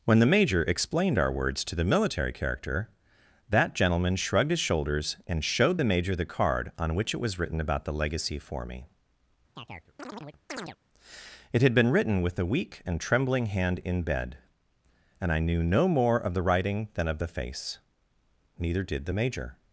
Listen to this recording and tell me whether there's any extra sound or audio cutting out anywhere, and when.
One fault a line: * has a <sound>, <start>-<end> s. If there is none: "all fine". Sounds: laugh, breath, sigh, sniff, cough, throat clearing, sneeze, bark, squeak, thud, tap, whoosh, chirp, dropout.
* has a chirp, 9.6-10.8 s